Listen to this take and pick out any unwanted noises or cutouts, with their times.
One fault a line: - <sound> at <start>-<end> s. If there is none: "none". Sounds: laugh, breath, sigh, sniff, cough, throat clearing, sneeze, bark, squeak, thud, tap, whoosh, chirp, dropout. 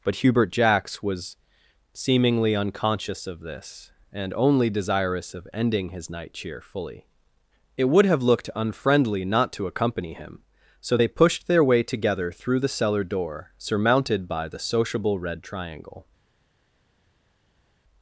none